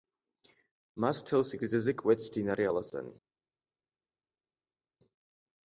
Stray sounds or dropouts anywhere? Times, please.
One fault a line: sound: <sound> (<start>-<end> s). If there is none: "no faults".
no faults